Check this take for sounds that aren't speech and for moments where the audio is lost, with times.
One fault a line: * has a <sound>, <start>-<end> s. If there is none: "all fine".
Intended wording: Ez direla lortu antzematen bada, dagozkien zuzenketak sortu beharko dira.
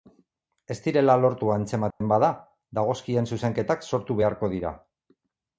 * has a dropout, 1.9-2.0 s